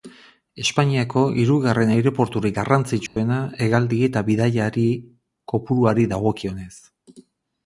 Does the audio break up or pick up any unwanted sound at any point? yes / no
yes